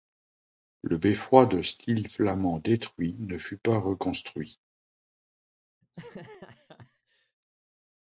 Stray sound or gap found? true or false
true